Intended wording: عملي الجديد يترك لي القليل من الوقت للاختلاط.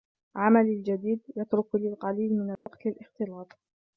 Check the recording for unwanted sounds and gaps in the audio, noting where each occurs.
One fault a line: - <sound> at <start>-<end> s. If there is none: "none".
- dropout at 2.6-2.7 s